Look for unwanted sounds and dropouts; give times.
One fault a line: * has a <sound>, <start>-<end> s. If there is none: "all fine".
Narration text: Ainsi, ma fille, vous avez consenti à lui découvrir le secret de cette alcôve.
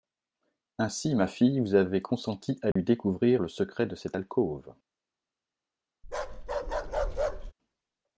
* has a dropout, 2.7-2.8 s
* has a bark, 6.0-7.5 s